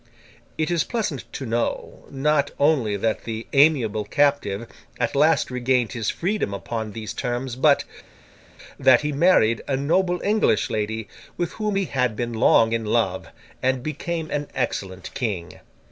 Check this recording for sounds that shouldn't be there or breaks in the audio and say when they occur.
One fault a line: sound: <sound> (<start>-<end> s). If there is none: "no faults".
no faults